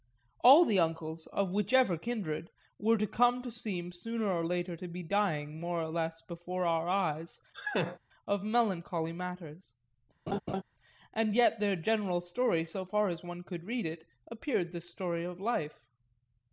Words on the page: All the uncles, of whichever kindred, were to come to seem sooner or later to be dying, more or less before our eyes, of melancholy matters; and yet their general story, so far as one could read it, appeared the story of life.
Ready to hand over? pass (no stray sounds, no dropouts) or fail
fail